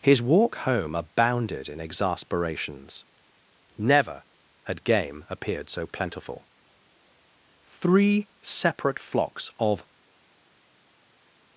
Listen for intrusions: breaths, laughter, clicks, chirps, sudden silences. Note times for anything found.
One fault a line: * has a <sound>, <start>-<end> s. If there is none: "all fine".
all fine